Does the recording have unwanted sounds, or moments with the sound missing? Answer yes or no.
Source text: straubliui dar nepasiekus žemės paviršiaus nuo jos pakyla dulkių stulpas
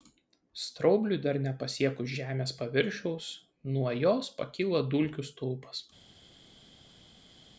no